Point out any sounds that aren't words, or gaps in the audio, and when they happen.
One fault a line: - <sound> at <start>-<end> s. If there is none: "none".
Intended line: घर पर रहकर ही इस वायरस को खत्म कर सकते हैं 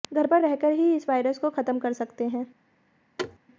- thud at 3.2-3.4 s